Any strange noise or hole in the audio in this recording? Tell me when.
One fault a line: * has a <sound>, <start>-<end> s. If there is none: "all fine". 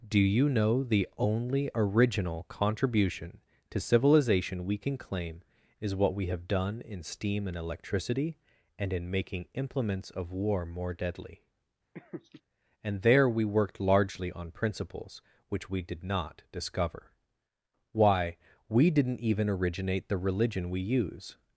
* has a laugh, 11.9-12.4 s